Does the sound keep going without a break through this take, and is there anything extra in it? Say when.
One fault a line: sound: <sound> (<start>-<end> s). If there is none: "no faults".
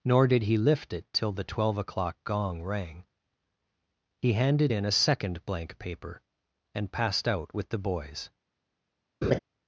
sound: laugh (9.2-9.4 s)